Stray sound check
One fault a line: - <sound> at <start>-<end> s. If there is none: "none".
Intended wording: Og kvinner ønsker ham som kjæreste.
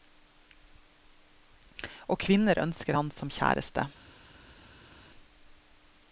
none